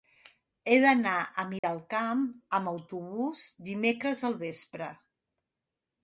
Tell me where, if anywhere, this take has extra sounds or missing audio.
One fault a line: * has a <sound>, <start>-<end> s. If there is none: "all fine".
* has a dropout, 1.6-1.6 s